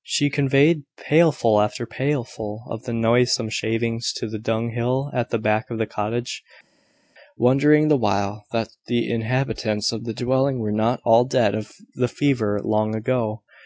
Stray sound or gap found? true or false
false